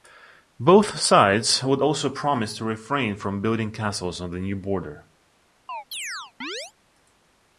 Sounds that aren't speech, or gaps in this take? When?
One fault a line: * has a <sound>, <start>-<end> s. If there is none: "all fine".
* has a chirp, 5.7-6.7 s